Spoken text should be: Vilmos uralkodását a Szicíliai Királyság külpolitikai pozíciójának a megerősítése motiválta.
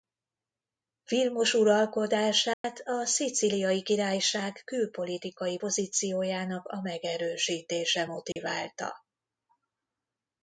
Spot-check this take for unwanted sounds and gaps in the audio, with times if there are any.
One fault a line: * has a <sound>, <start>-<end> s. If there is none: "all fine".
* has a dropout, 2.5-2.6 s
* has a dropout, 8.3-8.4 s